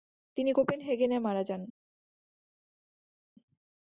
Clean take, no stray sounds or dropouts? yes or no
yes